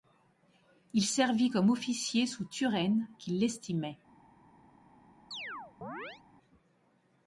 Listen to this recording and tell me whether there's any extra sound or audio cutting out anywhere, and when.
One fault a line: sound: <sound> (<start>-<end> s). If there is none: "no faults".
sound: chirp (5.3-6.2 s)